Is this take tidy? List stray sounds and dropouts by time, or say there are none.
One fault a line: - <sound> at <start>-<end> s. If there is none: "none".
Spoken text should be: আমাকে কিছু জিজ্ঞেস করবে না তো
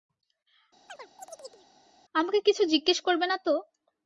- chirp at 0.9-1.7 s